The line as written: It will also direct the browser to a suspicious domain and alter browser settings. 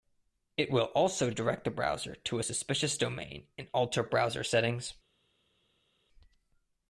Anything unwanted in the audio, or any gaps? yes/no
no